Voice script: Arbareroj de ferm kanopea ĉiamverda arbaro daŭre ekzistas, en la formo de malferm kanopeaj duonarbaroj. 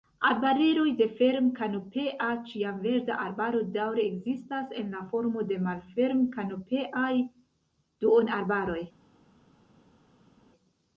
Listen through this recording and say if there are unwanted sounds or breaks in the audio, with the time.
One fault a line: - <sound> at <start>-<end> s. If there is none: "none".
none